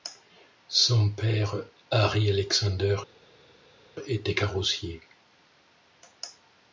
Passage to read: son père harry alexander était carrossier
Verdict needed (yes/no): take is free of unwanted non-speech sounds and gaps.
yes